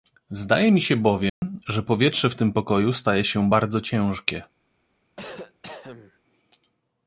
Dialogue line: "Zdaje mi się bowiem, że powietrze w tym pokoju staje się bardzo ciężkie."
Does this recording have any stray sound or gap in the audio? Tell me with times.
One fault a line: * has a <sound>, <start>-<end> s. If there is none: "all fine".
* has a dropout, 1.3-1.4 s
* has a cough, 5.2-6.2 s